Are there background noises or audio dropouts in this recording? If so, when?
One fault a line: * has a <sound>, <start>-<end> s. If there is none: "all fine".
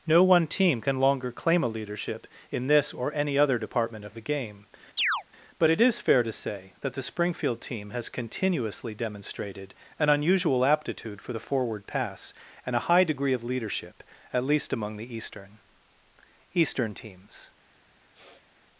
* has a chirp, 5.0-5.2 s
* has a sniff, 18.1-18.5 s